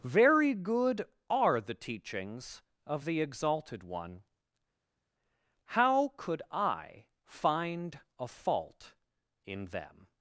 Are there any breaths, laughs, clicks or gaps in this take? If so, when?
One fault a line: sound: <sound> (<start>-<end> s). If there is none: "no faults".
no faults